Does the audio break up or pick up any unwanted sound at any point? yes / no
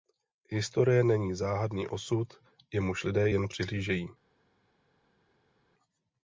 no